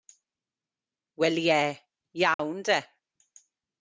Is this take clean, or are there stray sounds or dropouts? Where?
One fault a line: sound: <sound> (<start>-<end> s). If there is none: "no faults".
sound: dropout (2.3-2.4 s)